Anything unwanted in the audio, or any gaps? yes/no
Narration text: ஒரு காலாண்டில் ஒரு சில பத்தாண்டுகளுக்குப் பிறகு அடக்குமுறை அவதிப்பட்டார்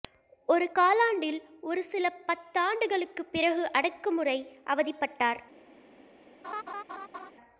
yes